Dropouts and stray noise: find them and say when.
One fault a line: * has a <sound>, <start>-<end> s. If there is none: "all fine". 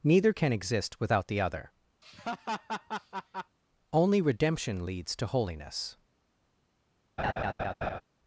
* has a laugh, 2.0-3.6 s
* has a laugh, 7.2-8.0 s